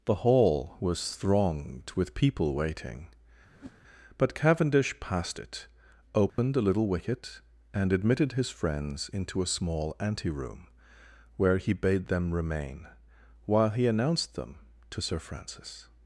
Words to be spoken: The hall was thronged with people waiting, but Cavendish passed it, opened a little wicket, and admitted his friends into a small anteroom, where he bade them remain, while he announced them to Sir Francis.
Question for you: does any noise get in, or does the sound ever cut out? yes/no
yes